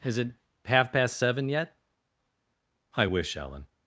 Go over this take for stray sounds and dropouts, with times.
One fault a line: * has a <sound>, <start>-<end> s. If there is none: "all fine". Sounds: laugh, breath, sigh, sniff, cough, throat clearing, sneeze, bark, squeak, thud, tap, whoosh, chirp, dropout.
all fine